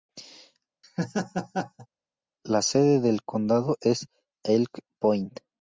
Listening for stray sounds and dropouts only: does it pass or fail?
fail